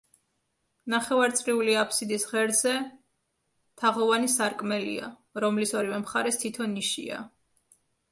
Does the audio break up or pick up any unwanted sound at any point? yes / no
no